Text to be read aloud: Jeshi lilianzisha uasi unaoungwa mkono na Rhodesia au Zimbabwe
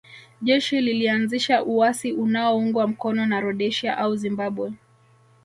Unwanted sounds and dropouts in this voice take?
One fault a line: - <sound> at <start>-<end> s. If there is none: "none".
none